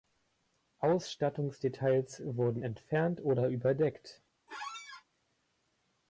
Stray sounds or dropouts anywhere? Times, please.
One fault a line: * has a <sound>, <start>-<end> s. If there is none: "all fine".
* has a squeak, 4.5-5.0 s